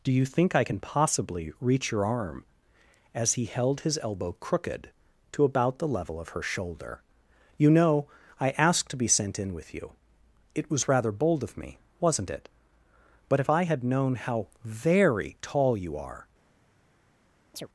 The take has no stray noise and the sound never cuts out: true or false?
false